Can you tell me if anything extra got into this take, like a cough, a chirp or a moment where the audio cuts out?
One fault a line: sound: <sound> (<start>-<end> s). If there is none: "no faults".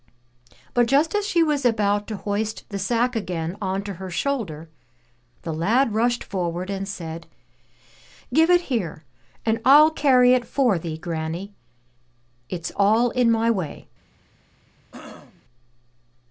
sound: throat clearing (14.9-15.4 s)